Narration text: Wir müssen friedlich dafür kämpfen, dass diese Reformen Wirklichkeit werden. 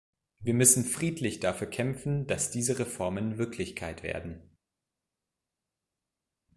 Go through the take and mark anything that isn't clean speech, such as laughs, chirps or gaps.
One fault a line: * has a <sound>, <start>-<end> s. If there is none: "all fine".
all fine